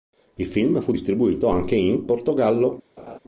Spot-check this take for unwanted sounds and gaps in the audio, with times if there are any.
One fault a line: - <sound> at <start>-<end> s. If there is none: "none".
- laugh at 3.0-3.2 s